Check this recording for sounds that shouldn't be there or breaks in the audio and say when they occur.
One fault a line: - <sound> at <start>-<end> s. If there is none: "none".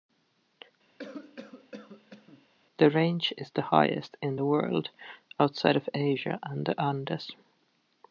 - cough at 1.0-2.5 s